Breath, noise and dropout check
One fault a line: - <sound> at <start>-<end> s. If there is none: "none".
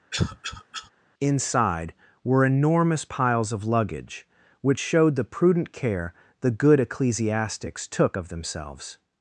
- cough at 0.1-0.9 s